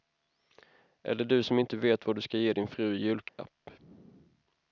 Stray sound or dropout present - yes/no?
yes